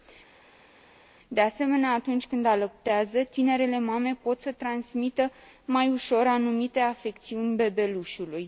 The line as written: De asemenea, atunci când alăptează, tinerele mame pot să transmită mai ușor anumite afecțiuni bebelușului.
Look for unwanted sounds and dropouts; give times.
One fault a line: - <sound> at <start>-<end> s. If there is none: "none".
none